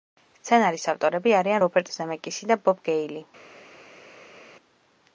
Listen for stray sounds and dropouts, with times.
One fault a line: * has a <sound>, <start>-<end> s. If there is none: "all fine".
all fine